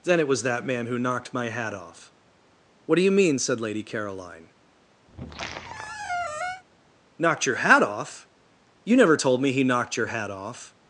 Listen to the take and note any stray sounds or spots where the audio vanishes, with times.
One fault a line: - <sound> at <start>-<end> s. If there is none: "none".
- squeak at 5.1-6.6 s